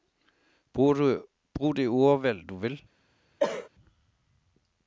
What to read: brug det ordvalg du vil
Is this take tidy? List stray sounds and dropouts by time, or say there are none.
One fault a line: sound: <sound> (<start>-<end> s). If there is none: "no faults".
sound: cough (3.4-3.7 s)